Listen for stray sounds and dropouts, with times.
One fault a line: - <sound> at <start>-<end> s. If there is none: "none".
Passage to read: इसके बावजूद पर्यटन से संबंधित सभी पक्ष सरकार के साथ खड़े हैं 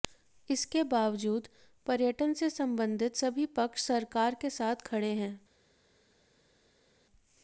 none